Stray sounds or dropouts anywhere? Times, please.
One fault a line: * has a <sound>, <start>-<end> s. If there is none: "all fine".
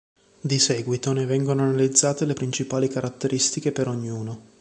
all fine